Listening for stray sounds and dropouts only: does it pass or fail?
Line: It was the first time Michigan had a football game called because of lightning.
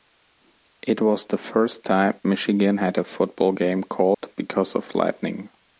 fail